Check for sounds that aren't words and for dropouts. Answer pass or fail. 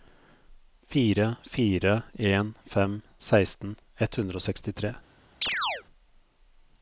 fail